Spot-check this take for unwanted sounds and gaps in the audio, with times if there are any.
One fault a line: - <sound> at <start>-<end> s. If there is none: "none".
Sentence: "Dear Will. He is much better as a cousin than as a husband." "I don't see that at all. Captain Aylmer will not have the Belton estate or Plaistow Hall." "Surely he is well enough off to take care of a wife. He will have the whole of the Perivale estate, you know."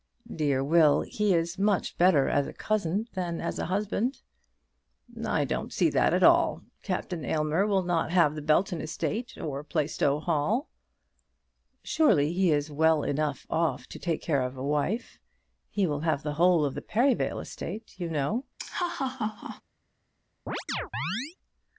- laugh at 18.6-19.6 s
- chirp at 20.5-21.4 s